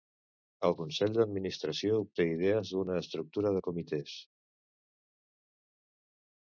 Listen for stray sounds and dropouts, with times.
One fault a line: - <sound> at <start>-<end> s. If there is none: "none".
none